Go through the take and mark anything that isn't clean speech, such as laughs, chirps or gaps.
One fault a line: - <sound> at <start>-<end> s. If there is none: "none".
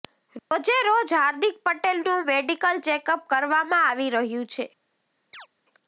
- dropout at 0.4-0.5 s
- chirp at 5.3-5.5 s